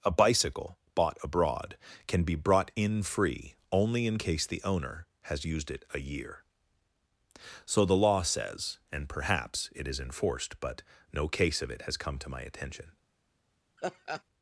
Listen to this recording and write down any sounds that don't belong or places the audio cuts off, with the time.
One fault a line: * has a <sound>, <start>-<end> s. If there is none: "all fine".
* has a laugh, 13.8-14.2 s